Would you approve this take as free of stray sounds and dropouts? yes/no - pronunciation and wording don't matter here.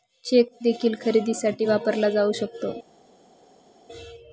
yes